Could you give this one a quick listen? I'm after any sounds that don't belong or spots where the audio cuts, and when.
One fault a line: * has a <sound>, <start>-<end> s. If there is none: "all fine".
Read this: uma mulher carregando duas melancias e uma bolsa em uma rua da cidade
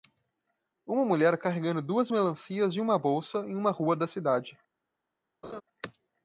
* has a laugh, 5.4-5.6 s